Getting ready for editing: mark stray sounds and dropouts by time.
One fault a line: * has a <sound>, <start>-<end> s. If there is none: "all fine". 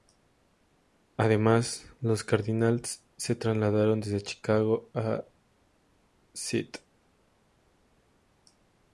all fine